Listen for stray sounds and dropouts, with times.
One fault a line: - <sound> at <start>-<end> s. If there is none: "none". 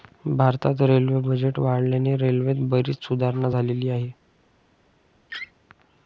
- laugh at 5.3-5.5 s